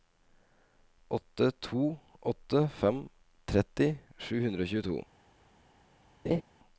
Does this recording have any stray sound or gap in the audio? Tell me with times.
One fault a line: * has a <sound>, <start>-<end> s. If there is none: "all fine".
* has a laugh, 6.2-6.4 s